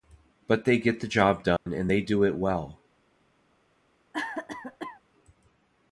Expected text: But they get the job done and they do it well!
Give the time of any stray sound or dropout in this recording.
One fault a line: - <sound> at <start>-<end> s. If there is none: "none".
- dropout at 1.6-1.7 s
- cough at 4.1-5.0 s